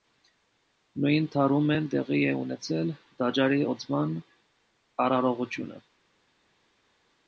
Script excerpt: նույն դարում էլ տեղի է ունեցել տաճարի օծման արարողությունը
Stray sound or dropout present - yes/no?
no